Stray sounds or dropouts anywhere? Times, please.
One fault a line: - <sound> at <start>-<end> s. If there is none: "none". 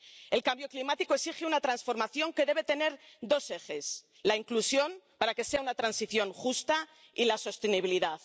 none